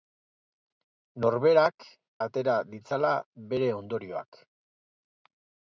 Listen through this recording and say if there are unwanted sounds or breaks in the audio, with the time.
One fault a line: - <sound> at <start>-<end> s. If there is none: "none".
none